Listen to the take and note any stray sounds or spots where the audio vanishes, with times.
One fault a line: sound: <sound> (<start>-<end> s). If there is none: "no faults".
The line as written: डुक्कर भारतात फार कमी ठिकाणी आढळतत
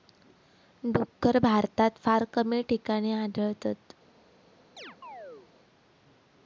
sound: chirp (4.8-5.5 s)